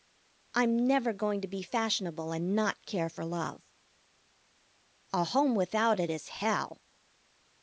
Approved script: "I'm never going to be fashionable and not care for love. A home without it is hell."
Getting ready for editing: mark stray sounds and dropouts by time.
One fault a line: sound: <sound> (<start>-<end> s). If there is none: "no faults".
no faults